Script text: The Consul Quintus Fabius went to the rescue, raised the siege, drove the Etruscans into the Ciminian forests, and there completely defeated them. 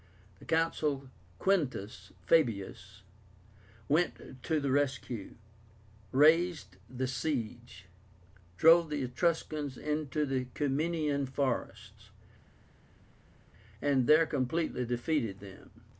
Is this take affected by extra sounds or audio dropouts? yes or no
no